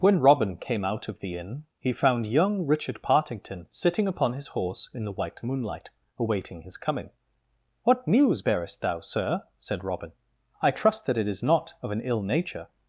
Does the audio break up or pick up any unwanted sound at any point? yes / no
no